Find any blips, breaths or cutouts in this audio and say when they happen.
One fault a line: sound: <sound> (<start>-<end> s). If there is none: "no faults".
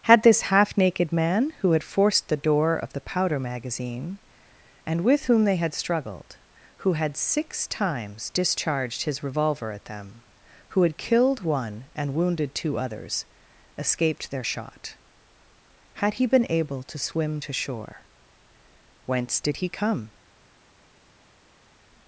no faults